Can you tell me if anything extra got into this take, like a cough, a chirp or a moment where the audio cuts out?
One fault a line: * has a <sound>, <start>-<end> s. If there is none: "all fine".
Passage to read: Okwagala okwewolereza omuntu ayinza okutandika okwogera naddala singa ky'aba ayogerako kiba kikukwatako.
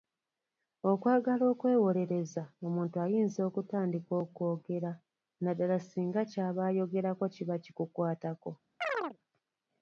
* has a chirp, 8.8-9.2 s